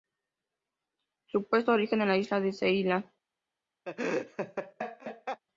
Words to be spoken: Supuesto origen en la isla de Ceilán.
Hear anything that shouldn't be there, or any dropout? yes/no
yes